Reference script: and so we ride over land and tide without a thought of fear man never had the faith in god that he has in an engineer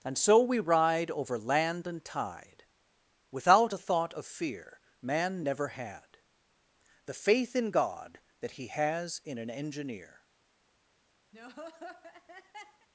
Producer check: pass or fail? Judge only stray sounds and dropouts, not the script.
fail